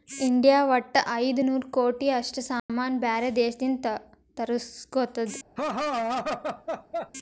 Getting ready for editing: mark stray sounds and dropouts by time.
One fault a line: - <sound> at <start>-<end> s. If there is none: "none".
- dropout at 2.6-2.7 s
- laugh at 5.6-7.1 s